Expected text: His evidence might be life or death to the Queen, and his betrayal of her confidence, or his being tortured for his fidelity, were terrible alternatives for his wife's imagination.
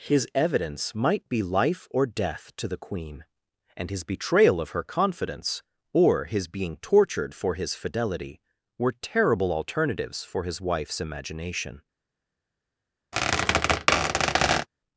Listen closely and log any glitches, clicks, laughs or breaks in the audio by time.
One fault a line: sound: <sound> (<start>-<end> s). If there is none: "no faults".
sound: squeak (13.1-14.7 s)